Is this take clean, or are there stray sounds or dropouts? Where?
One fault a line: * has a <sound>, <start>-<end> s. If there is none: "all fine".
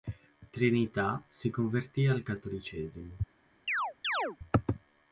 * has a chirp, 3.7-4.4 s